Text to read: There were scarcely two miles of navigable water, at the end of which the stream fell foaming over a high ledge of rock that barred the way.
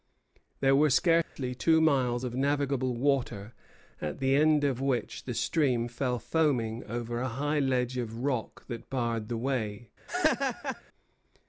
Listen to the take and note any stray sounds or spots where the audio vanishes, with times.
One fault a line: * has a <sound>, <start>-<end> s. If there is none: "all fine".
* has a dropout, 1.2-1.4 s
* has a laugh, 10.1-10.8 s